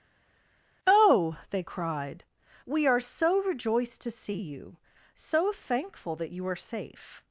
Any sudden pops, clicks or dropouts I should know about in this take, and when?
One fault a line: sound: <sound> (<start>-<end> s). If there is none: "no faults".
no faults